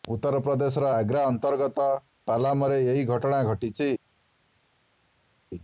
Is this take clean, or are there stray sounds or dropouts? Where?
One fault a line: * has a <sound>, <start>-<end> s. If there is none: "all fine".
all fine